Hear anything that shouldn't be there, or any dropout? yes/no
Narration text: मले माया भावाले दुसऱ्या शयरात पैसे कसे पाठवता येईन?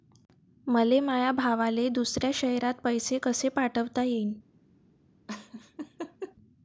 yes